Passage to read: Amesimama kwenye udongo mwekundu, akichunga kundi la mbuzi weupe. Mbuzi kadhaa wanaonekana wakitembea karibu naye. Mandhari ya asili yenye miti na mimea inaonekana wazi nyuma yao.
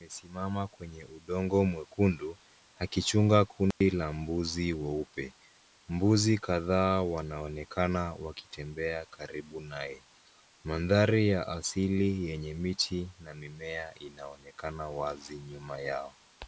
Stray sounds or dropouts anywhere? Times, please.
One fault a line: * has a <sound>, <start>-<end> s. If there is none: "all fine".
* has a dropout, 3.7-3.8 s